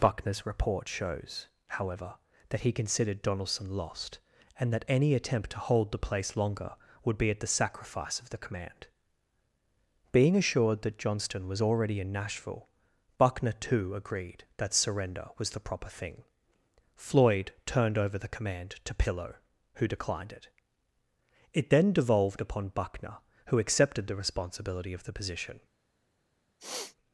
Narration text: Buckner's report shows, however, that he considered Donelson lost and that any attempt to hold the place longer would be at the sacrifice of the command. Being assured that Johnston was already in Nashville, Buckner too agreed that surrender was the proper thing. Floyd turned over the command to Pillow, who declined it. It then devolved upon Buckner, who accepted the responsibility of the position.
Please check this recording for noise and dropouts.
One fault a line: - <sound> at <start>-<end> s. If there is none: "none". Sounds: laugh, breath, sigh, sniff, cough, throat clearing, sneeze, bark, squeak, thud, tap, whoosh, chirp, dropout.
- sniff at 26.6-27.0 s